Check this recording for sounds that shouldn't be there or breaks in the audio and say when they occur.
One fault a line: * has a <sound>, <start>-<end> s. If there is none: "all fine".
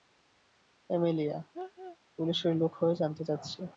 * has a laugh, 1.5-2.0 s